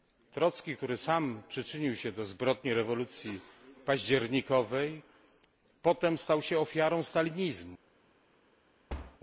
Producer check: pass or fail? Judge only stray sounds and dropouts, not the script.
fail